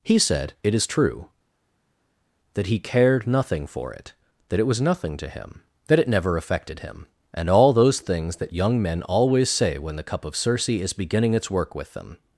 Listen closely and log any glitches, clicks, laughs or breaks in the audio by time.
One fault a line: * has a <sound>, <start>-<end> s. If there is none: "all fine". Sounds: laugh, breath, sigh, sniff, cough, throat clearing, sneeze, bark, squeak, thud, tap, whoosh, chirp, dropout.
all fine